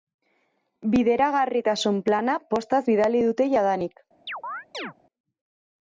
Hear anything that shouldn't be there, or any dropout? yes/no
yes